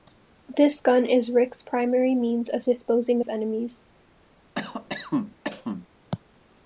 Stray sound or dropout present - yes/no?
yes